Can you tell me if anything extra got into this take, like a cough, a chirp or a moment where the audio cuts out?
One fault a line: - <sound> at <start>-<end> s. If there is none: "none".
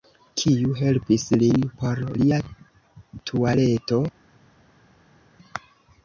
none